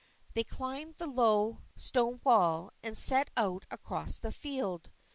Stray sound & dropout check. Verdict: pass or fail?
pass